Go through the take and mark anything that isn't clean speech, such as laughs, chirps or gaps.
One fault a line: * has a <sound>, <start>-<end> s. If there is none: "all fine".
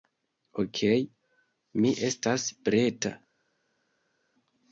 all fine